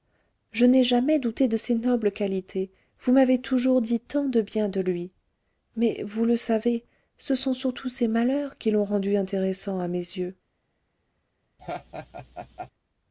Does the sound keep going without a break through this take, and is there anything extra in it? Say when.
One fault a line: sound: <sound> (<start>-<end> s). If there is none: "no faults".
sound: laugh (11.6-12.7 s)